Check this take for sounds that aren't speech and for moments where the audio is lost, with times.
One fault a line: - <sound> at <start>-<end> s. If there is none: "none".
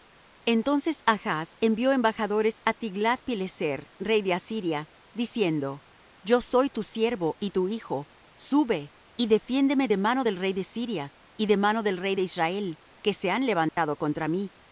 - dropout at 13.7-13.8 s